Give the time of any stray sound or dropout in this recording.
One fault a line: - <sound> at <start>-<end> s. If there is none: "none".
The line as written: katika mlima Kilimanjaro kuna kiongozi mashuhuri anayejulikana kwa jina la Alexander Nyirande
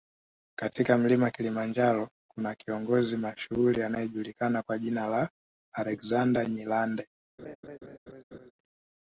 - laugh at 7.4-8.5 s